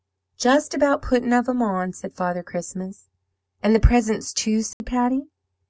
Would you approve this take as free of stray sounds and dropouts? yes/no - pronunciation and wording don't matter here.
no